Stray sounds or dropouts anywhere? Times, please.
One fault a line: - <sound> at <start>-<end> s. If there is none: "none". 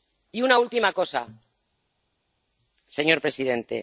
none